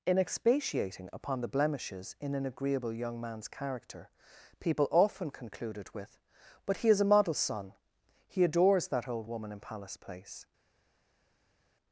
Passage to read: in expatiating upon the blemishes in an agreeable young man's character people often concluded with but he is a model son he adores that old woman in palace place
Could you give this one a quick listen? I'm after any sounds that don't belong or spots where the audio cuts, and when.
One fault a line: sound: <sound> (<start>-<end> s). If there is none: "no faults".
no faults